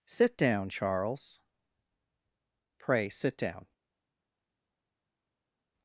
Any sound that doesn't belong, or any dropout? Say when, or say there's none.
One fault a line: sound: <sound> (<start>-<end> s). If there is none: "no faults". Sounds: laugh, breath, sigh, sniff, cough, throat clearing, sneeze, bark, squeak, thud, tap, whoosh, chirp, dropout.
no faults